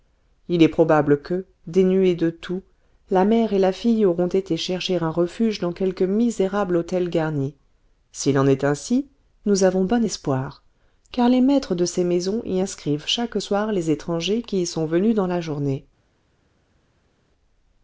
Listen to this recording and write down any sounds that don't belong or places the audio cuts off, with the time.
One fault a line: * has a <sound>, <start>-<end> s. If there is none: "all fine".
all fine